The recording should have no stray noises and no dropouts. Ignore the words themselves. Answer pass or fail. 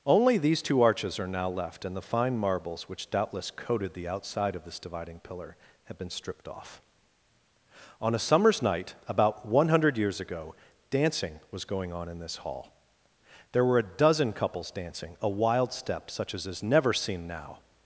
pass